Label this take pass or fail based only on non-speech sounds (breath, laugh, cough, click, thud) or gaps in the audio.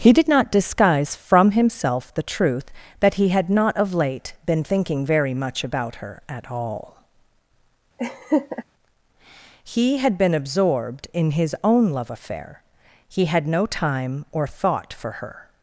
fail